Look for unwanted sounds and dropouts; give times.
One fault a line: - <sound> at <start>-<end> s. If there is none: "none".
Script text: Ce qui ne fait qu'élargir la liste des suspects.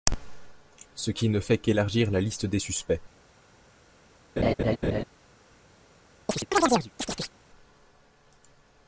- laugh at 4.4-5.0 s
- chirp at 6.3-7.3 s